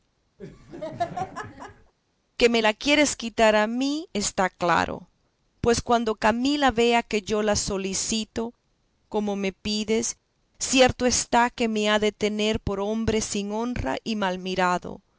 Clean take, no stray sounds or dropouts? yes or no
no